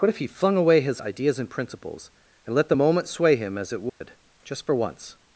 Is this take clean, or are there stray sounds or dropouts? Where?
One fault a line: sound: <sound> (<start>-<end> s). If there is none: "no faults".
sound: dropout (3.9-4.0 s)